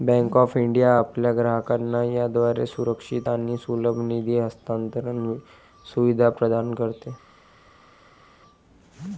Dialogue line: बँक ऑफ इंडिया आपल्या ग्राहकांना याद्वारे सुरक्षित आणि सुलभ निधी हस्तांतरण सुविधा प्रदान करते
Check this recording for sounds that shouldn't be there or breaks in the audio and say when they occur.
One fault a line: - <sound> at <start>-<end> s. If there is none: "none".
none